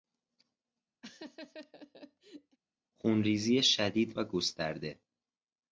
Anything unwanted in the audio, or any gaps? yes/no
yes